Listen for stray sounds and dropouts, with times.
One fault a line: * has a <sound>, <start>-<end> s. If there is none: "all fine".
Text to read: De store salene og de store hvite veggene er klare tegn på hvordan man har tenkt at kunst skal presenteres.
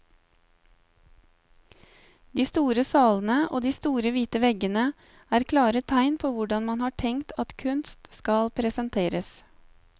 all fine